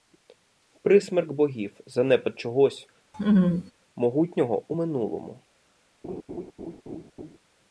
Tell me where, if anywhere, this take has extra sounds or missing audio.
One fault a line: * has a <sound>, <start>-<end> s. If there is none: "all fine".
* has a laugh, 3.1-3.7 s
* has a laugh, 6.0-7.4 s